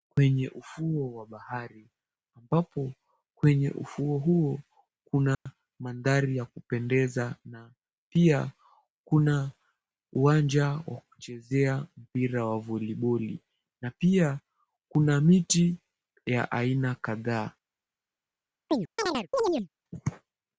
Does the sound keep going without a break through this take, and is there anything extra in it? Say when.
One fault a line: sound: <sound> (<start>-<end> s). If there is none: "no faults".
sound: dropout (5.3-5.5 s)
sound: chirp (18.7-19.7 s)